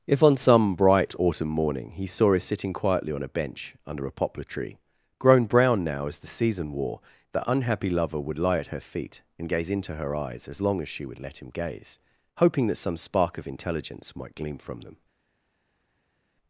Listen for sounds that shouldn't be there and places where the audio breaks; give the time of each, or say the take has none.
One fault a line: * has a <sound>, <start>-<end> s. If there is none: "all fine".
all fine